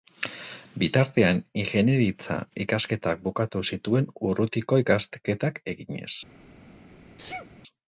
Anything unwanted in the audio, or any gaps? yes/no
yes